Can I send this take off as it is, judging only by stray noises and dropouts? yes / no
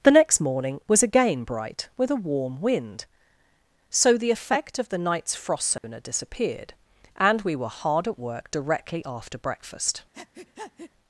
no